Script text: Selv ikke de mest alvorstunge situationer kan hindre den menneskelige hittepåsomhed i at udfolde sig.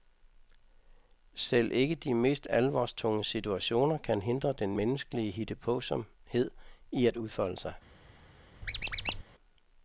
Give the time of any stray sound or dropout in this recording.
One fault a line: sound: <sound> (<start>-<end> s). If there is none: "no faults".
sound: squeak (8.6-9.2 s)